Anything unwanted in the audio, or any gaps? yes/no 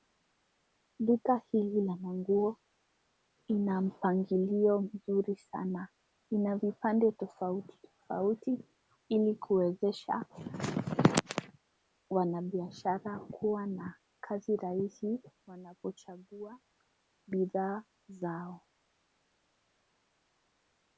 no